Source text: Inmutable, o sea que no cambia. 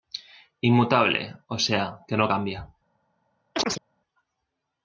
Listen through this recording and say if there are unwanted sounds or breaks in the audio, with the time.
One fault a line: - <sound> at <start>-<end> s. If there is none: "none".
- chirp at 3.5-3.8 s